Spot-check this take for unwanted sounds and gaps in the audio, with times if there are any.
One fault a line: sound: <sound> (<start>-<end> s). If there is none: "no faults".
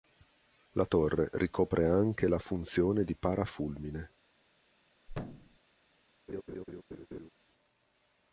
sound: thud (5.1-5.6 s)
sound: laugh (6.3-7.3 s)